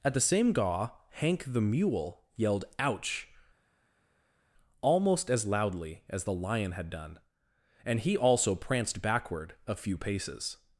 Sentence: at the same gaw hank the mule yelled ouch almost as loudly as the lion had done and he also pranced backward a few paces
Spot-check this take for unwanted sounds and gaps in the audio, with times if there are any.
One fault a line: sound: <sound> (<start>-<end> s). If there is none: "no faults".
no faults